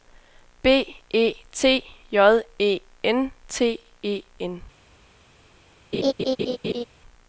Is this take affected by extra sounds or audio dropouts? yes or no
yes